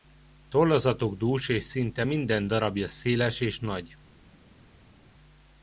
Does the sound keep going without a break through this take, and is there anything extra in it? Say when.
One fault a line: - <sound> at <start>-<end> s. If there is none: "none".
none